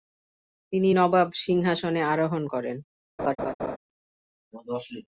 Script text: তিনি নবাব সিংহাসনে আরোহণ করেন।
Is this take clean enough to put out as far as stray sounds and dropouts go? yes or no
no